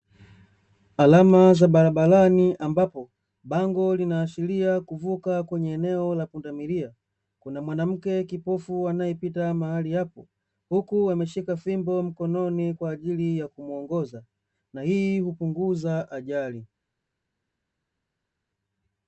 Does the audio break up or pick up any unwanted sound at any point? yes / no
no